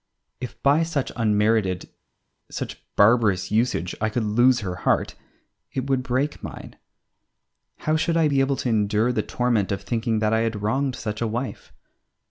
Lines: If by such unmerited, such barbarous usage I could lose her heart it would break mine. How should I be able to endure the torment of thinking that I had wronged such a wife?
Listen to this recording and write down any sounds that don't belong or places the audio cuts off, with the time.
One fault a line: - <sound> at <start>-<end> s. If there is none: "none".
none